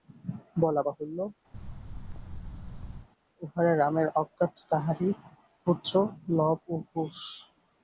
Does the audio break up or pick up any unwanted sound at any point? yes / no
yes